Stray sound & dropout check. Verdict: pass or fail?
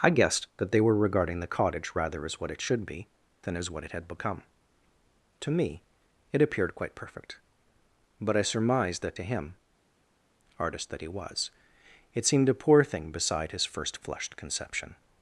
pass